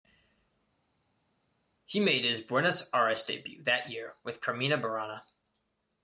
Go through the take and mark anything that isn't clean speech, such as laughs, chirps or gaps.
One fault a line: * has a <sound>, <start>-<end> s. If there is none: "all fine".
all fine